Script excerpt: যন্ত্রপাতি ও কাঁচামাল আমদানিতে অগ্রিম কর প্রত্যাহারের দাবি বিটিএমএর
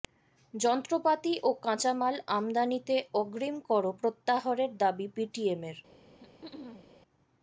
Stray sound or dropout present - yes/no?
yes